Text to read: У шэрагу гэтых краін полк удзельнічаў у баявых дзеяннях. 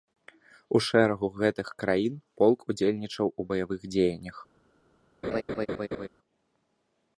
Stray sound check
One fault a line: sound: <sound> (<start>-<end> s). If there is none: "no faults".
sound: laugh (5.2-6.1 s)